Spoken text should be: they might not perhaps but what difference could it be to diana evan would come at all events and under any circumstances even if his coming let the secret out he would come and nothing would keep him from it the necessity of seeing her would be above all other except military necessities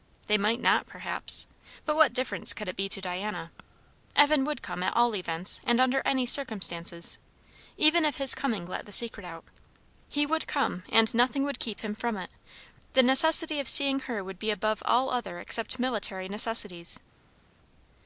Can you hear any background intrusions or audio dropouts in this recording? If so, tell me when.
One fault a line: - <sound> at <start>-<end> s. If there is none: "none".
none